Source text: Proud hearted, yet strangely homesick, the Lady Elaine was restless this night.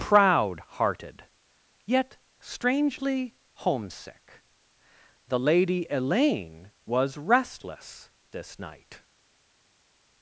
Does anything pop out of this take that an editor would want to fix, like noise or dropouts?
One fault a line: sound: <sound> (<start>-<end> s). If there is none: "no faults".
no faults